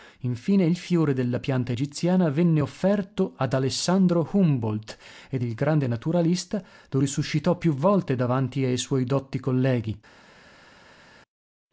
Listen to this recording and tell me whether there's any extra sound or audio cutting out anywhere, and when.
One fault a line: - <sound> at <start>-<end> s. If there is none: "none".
none